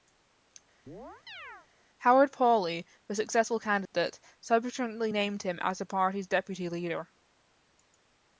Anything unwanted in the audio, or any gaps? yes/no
yes